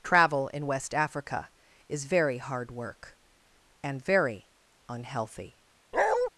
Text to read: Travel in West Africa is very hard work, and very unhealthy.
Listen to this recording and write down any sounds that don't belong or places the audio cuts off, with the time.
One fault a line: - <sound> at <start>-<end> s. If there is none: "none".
- bark at 5.9-6.3 s